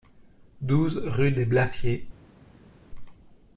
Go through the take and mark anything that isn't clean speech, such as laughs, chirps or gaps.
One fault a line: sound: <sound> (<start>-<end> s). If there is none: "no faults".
no faults